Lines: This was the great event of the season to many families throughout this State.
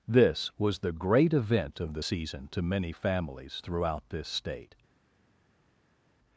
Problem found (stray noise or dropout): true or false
false